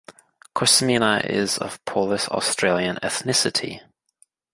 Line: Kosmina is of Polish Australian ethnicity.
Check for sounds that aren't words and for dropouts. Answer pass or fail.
pass